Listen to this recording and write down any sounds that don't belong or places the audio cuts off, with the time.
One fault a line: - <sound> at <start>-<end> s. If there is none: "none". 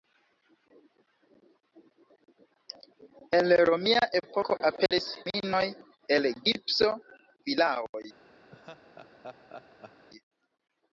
- dropout at 4.9-4.9 s
- laugh at 8.5-10.1 s